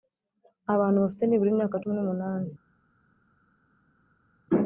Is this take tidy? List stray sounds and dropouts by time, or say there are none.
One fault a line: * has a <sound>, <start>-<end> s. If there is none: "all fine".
all fine